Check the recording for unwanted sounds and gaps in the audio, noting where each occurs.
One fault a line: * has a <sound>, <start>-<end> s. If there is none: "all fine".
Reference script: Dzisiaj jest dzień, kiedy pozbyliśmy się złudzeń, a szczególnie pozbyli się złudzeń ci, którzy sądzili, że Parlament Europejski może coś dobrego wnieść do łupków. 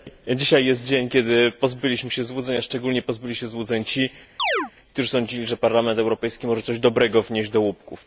* has a chirp, 4.4-4.7 s